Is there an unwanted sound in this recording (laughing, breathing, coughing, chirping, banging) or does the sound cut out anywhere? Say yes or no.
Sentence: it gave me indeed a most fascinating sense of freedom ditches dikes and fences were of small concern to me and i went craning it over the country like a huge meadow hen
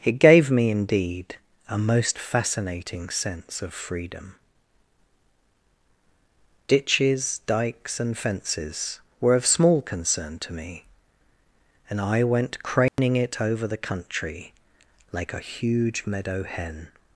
yes